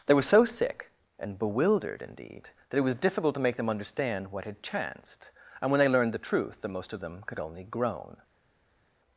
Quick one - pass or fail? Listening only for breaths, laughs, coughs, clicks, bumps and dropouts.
pass